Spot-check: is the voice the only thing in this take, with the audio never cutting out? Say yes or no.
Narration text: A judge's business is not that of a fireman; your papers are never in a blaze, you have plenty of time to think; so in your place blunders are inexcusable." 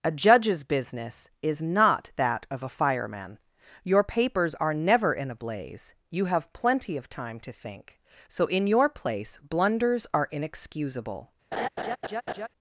no